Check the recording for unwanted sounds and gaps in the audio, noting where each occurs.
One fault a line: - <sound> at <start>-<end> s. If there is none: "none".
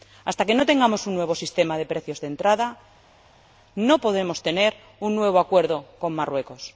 none